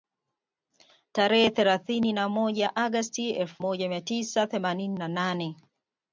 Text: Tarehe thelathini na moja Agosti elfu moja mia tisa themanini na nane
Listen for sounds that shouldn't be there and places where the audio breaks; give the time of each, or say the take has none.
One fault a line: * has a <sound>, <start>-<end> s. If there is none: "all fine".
all fine